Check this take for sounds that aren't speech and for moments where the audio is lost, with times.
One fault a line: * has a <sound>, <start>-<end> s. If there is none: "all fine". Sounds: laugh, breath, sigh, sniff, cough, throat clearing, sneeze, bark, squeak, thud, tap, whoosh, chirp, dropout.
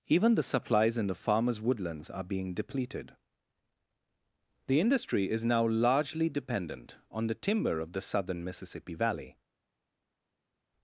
all fine